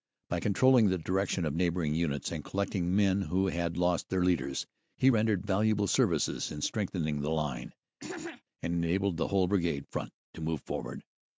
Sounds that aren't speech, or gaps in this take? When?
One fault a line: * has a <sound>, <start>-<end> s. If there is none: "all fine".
* has a throat clearing, 8.0-8.4 s